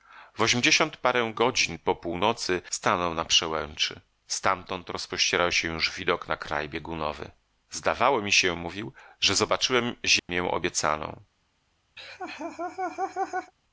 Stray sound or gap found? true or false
true